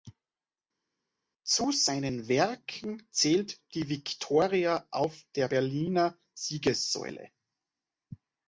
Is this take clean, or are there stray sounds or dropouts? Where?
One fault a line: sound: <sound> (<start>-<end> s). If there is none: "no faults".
no faults